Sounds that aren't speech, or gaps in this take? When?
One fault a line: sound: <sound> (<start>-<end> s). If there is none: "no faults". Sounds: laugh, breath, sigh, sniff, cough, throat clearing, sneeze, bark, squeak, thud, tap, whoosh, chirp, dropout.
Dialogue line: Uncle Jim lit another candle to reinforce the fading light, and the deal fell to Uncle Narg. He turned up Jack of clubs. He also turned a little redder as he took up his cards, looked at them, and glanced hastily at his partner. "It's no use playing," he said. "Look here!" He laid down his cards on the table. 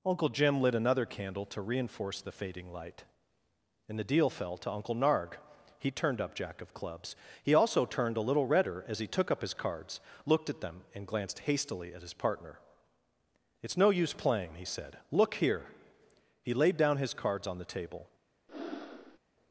sound: breath (18.5-19.2 s)